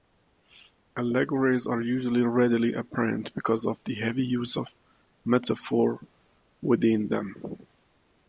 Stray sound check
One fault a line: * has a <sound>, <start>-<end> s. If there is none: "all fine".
all fine